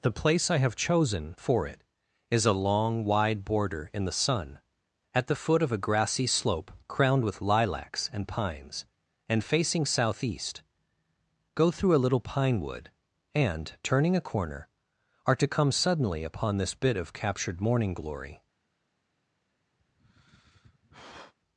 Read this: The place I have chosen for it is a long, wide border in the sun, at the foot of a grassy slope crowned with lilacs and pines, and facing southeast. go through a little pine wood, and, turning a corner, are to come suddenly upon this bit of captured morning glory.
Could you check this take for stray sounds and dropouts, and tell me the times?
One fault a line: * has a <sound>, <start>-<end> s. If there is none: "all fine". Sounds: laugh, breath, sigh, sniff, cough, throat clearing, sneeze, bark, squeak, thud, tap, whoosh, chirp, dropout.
* has a sigh, 19.8-21.3 s